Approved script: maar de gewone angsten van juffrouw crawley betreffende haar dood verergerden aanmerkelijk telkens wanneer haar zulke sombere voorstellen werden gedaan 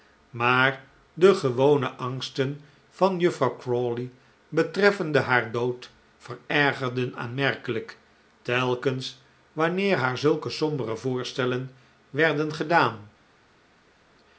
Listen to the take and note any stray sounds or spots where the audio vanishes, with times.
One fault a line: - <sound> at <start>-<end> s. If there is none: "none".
none